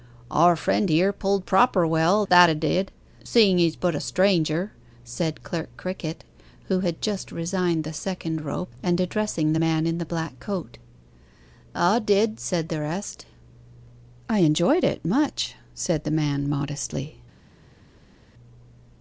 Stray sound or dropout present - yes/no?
no